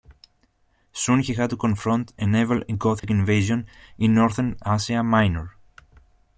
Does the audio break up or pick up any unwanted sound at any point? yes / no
yes